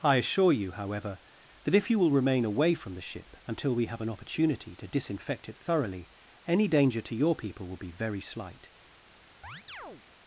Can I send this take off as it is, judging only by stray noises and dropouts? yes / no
no